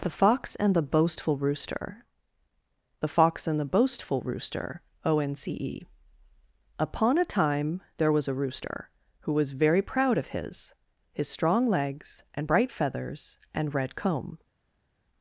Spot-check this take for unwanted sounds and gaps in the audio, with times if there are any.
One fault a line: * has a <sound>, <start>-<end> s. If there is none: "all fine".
all fine